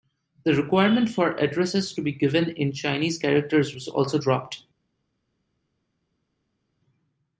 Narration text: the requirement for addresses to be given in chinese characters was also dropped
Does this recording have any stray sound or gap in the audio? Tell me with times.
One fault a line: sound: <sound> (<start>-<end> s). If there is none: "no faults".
no faults